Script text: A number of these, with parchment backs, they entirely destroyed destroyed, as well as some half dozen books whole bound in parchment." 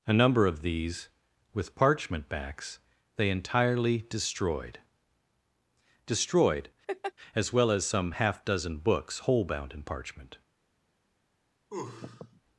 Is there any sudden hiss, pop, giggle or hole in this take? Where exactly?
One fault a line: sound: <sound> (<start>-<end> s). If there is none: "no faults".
sound: laugh (6.9-7.1 s)
sound: sneeze (11.7-12.4 s)